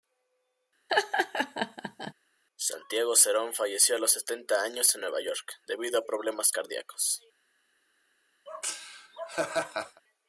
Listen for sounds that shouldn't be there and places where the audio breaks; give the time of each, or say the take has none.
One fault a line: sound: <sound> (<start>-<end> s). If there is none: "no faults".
sound: laugh (0.9-2.1 s)
sound: laugh (8.5-10.0 s)